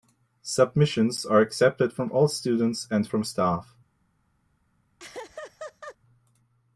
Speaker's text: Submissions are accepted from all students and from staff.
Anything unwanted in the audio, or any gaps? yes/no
yes